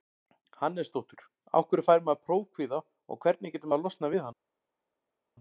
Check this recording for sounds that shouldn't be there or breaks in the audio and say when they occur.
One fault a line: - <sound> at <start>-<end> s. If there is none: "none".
none